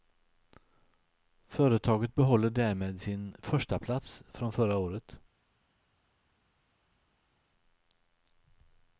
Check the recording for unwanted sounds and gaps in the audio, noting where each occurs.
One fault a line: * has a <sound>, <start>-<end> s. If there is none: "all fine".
all fine